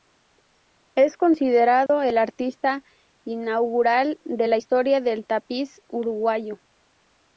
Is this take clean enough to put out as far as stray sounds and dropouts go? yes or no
no